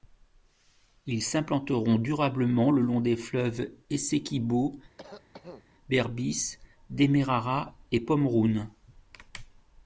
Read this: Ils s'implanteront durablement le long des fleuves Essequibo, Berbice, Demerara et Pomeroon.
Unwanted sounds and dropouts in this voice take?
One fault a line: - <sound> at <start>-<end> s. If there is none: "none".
- cough at 5.0-5.7 s